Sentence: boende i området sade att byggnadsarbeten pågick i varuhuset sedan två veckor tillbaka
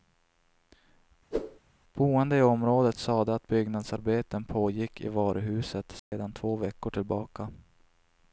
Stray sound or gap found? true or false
true